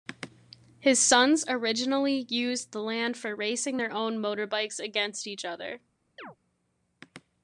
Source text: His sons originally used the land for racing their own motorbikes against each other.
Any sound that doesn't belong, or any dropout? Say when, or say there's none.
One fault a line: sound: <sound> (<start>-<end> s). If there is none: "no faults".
sound: chirp (6.2-6.4 s)